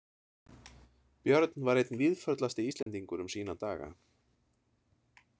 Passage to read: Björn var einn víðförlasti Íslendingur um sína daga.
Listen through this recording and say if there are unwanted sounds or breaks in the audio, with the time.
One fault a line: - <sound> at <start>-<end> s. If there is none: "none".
- dropout at 2.8-2.9 s